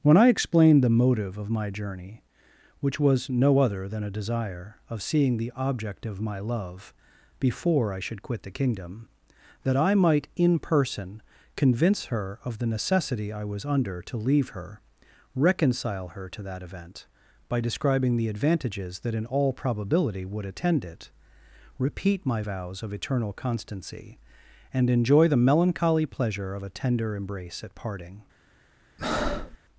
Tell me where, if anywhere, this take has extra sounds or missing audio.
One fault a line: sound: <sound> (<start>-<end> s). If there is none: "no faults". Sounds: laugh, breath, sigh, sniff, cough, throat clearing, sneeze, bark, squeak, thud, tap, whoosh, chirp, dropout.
sound: breath (29.0-29.6 s)